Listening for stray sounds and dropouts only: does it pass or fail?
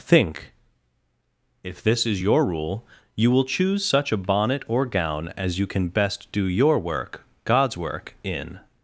pass